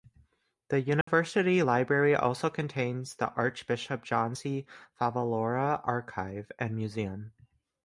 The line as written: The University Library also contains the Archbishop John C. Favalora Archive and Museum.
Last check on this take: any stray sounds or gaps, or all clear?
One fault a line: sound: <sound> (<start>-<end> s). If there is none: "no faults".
sound: dropout (1.0-1.1 s)